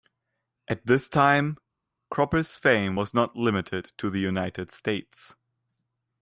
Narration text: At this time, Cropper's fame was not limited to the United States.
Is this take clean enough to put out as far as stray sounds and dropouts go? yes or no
yes